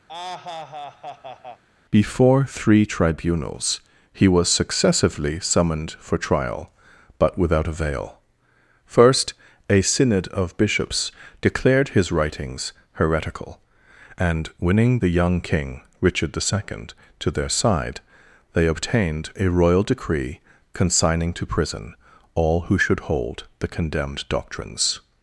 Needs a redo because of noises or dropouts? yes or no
yes